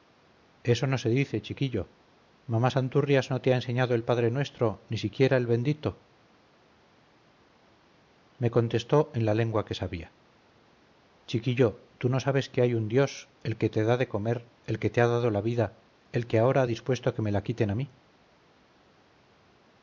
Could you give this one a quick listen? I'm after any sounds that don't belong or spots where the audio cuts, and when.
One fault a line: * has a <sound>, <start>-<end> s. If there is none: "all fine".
all fine